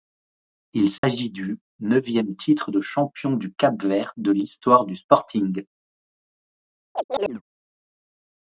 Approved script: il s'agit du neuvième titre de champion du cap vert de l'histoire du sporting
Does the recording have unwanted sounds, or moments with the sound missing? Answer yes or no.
yes